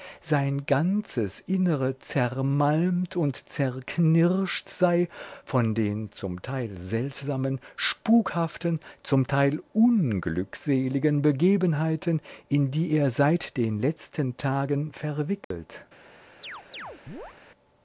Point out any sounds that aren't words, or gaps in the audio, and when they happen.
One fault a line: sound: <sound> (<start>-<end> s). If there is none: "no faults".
sound: dropout (15.4-15.5 s)
sound: chirp (16.4-17.4 s)